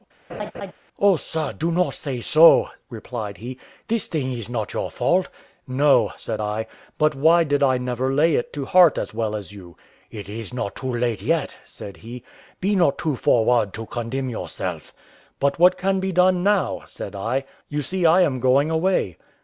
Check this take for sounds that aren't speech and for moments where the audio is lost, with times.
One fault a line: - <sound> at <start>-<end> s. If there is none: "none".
- laugh at 0.3-0.7 s